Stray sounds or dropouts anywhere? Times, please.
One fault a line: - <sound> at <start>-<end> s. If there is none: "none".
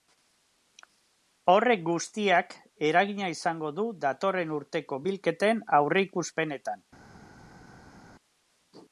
none